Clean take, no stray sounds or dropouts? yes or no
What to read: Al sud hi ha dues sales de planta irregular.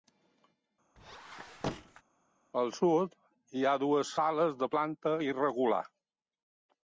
no